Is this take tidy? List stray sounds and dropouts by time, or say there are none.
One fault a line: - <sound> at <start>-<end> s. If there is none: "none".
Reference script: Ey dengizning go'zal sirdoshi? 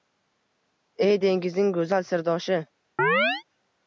- chirp at 3.0-3.4 s